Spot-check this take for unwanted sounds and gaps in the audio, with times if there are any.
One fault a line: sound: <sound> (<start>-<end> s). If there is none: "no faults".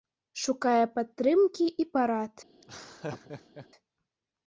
sound: laugh (2.6-3.7 s)